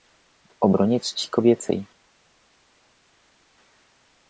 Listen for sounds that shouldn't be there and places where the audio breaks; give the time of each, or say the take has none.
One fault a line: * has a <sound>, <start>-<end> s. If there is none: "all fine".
all fine